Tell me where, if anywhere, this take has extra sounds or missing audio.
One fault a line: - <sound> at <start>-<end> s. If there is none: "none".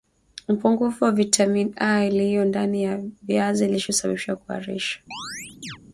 - chirp at 5.1-5.8 s